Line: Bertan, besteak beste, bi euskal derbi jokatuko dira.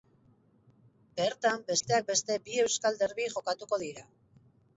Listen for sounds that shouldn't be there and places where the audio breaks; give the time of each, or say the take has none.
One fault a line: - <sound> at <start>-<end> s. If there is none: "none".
- dropout at 1.8-1.8 s